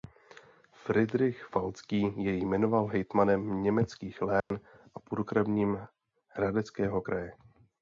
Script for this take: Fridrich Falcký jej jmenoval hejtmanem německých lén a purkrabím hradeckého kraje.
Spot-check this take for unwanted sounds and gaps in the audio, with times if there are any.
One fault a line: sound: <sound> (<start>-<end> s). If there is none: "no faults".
sound: dropout (4.4-4.5 s)